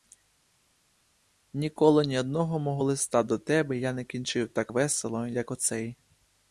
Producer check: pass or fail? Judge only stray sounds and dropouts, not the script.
pass